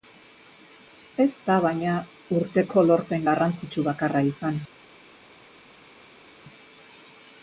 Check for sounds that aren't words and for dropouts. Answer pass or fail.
pass